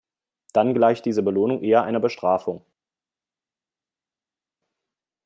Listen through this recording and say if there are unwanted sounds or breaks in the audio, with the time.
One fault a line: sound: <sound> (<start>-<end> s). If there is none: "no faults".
no faults